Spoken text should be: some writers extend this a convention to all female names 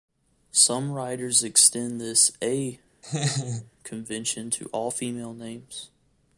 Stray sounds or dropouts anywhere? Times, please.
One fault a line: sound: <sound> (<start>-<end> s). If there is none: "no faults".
sound: laugh (3.0-3.7 s)